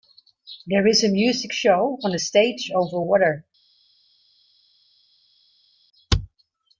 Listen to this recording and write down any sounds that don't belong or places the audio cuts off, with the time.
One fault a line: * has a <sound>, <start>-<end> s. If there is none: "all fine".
all fine